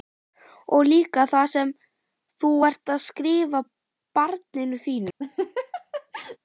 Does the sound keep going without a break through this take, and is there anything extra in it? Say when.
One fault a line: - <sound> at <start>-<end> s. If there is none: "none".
- laugh at 5.2-6.4 s